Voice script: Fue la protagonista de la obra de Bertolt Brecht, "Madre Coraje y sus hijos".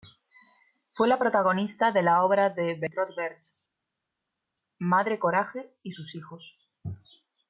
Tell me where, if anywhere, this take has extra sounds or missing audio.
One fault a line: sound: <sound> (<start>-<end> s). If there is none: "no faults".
no faults